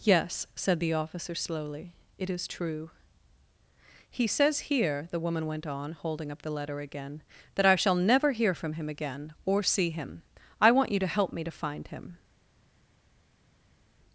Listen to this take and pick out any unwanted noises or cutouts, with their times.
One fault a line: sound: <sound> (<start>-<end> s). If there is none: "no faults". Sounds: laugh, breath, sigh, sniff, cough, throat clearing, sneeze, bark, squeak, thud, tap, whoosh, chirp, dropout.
no faults